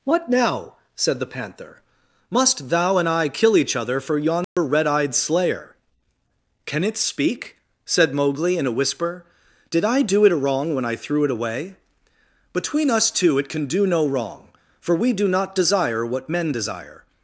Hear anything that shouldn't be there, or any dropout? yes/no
yes